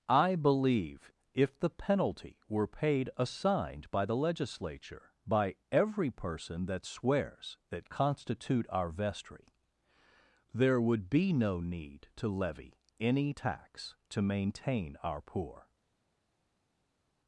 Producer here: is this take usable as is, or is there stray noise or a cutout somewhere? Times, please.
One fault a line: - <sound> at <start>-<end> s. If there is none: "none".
none